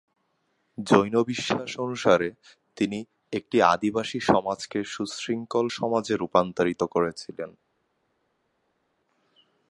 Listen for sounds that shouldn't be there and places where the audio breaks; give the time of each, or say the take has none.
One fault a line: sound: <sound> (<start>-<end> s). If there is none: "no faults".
no faults